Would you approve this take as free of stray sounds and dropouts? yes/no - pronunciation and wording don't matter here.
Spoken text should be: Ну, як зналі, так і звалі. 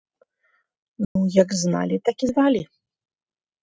no